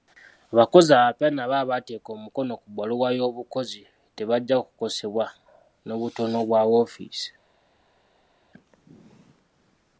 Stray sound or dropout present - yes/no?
no